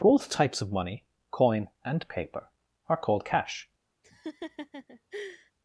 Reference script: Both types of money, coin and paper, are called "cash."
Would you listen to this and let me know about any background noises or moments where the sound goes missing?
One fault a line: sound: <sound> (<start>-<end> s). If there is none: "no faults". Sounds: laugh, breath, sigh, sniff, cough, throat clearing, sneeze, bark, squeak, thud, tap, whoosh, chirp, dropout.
sound: laugh (4.0-5.5 s)